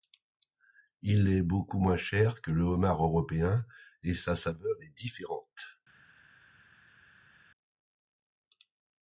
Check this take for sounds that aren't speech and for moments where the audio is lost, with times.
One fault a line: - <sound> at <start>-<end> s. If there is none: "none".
none